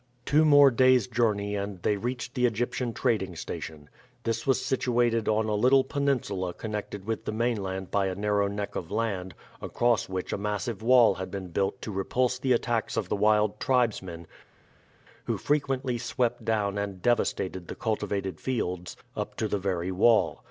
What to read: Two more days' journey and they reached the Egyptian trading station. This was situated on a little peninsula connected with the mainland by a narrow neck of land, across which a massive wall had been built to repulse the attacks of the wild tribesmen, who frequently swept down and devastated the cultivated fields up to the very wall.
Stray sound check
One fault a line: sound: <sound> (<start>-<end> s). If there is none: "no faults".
no faults